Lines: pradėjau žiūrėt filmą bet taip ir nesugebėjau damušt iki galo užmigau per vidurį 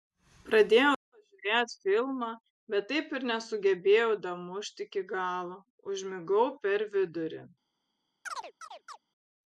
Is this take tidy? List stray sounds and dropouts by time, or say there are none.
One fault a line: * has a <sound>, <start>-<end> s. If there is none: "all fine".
* has a chirp, 8.2-9.0 s